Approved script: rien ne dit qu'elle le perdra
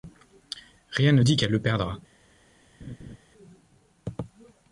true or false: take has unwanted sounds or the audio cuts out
true